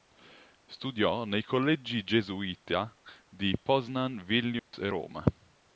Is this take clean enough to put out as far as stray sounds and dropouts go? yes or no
no